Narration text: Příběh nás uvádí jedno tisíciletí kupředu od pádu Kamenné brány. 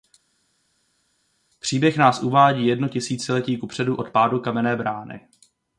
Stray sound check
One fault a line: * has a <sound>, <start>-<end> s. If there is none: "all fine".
all fine